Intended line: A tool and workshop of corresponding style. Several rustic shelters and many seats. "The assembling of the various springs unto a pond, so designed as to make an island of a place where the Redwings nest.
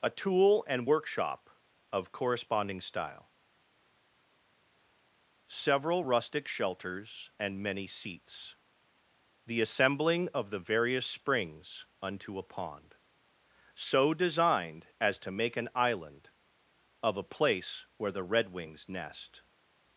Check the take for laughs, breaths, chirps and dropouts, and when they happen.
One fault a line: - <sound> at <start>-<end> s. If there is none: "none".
none